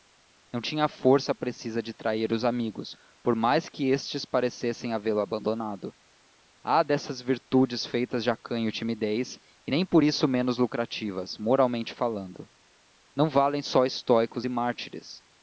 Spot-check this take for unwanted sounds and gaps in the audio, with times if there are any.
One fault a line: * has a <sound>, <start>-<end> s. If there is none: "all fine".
all fine